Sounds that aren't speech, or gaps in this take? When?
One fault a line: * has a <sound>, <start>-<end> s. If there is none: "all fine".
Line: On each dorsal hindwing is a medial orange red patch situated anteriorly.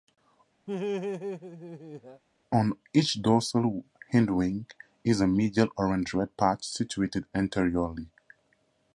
* has a laugh, 0.7-2.2 s